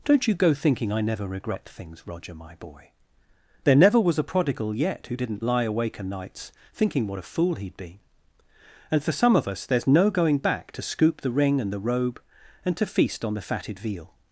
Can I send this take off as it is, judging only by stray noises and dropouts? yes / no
yes